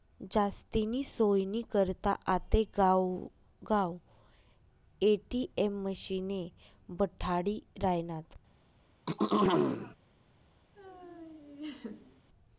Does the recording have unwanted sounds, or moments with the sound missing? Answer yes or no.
yes